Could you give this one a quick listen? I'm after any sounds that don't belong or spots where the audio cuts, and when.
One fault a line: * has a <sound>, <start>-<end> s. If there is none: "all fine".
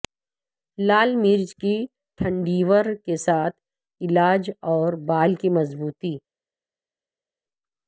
all fine